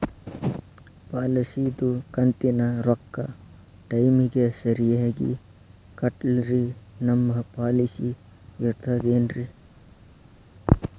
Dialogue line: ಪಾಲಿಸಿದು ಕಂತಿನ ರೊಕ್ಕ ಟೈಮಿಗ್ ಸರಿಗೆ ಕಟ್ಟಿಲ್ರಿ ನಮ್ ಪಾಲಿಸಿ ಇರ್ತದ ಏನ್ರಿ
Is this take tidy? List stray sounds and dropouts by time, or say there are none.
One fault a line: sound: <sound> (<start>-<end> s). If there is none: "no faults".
no faults